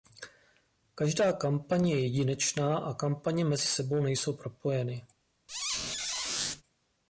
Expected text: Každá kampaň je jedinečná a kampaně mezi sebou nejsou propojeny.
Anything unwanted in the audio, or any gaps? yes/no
yes